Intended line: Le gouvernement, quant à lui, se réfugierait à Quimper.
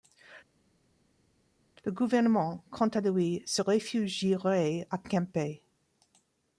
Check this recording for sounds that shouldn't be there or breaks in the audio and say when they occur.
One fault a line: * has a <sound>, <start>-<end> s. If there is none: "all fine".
all fine